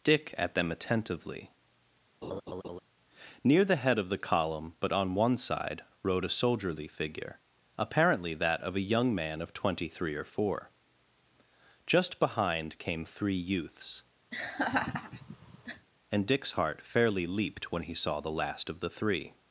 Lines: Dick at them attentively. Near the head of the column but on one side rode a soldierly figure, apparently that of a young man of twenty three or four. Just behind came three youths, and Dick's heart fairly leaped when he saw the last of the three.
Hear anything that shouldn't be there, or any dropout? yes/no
yes